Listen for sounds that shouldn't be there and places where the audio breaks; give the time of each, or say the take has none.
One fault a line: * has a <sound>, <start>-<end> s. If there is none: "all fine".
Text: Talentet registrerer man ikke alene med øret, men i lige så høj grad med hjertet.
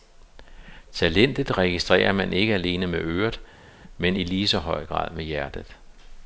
all fine